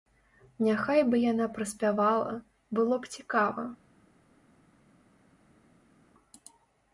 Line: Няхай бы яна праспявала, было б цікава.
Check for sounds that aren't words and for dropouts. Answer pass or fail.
pass